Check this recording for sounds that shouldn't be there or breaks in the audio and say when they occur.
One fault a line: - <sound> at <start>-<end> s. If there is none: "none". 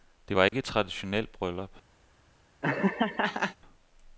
- dropout at 0.5-0.5 s
- laugh at 2.6-3.6 s